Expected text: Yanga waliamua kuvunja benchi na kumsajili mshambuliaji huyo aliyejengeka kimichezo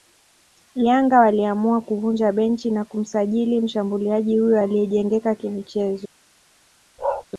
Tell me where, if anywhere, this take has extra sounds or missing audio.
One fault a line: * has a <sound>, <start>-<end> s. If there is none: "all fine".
* has a bark, 7.0-7.3 s